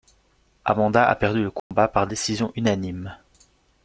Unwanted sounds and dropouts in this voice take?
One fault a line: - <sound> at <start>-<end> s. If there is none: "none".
- dropout at 1.6-1.7 s